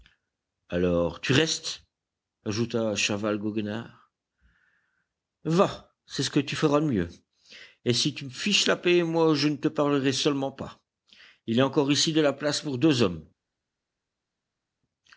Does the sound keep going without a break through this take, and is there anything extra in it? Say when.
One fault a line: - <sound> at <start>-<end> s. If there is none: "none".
none